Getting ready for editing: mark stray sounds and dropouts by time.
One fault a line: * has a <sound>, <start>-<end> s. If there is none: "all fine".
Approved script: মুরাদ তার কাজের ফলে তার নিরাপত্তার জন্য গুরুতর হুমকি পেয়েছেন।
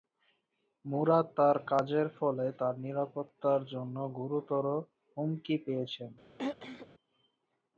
* has a throat clearing, 6.4-6.9 s